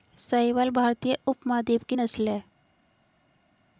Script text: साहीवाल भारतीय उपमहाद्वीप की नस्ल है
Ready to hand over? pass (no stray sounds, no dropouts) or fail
pass